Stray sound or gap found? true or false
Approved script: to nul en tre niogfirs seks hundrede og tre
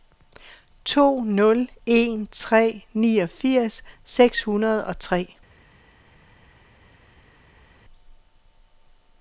false